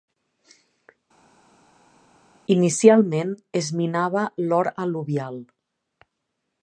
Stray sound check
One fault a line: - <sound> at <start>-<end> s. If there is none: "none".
none